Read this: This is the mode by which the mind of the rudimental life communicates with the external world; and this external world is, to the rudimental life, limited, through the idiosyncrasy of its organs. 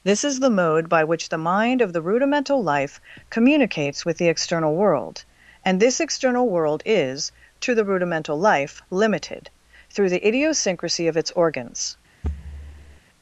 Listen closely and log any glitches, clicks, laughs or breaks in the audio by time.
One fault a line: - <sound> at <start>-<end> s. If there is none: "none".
- thud at 12.2-13.0 s